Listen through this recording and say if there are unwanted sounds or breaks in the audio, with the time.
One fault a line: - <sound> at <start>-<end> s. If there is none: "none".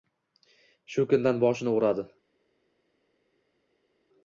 none